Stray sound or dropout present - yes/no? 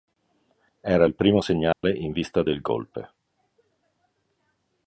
yes